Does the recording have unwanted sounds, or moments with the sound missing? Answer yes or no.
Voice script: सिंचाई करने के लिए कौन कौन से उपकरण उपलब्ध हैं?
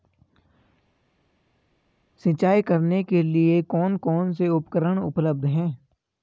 no